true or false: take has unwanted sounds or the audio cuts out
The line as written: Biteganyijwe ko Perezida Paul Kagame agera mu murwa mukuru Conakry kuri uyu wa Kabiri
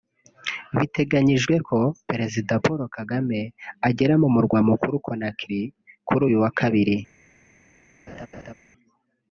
true